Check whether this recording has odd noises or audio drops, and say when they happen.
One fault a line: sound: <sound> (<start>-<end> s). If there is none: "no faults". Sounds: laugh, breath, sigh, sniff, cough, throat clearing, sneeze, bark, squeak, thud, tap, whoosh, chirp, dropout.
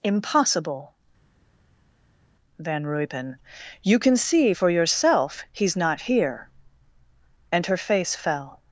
no faults